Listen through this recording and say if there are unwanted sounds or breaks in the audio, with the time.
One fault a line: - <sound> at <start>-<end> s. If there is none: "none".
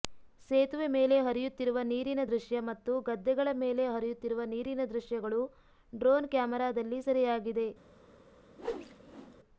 - whoosh at 8.6-9.4 s